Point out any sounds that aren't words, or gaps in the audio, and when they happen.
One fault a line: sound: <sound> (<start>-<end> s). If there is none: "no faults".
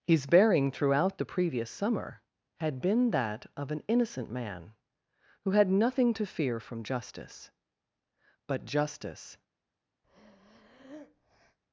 sound: breath (10.0-11.6 s)